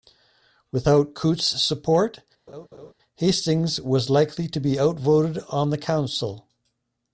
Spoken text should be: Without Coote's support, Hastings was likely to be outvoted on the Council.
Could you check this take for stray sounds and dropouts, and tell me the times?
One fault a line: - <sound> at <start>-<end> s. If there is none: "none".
- laugh at 2.5-2.9 s